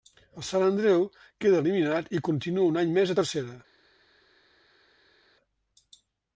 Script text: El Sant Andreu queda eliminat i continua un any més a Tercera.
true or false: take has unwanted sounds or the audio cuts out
false